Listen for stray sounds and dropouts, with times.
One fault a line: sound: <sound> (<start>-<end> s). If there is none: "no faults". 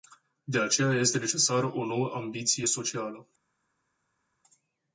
no faults